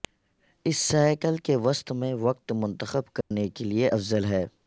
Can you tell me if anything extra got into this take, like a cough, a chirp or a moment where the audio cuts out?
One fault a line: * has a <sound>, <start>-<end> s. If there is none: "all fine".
* has a dropout, 3.2-3.3 s